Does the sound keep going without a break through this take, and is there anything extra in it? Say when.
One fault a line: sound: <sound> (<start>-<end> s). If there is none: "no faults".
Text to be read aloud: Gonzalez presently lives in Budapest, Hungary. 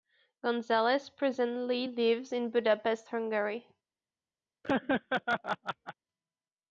sound: laugh (4.6-5.9 s)